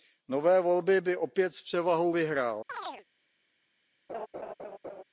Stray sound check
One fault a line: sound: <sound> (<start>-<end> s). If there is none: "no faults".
sound: chirp (2.7-3.0 s)
sound: laugh (4.1-5.0 s)